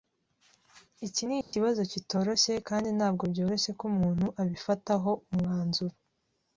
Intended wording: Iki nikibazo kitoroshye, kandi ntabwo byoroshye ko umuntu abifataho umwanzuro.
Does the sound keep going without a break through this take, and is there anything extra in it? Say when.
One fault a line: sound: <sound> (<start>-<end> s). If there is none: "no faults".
sound: dropout (1.4-1.5 s)